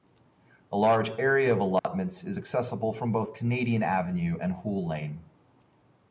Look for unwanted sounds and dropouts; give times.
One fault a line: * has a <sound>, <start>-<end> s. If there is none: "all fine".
* has a dropout, 1.8-1.8 s